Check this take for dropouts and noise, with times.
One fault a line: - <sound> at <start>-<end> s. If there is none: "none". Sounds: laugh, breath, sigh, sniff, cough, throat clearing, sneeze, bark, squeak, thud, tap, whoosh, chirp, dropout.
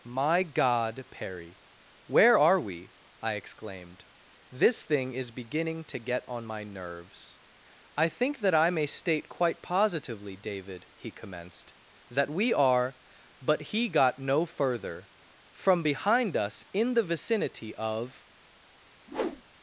- whoosh at 19.1-19.4 s